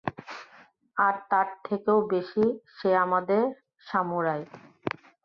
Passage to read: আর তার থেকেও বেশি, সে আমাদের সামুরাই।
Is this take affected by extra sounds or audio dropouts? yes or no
no